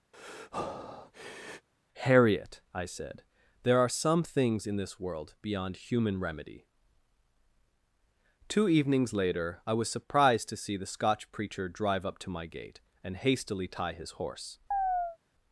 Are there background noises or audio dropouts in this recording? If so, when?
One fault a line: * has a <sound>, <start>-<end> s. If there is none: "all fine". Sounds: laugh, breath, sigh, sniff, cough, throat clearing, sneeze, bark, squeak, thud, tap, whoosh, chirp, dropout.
* has a breath, 0.1-1.7 s
* has a chirp, 14.7-15.2 s